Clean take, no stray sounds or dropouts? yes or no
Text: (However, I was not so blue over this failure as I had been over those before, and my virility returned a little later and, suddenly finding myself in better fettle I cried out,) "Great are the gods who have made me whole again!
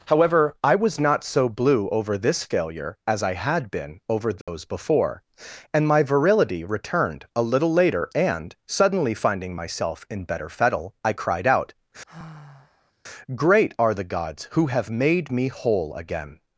no